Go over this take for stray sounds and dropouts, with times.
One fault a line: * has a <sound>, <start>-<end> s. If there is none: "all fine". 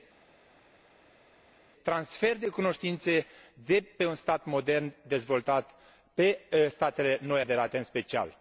all fine